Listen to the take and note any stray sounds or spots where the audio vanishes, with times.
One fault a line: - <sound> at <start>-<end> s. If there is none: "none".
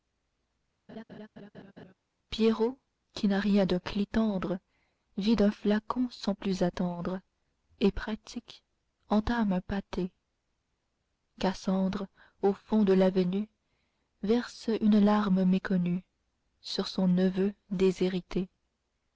- laugh at 0.9-1.9 s